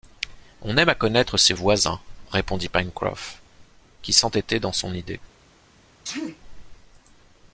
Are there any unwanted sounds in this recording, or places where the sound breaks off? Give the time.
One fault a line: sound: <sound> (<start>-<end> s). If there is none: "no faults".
sound: sneeze (6.0-6.4 s)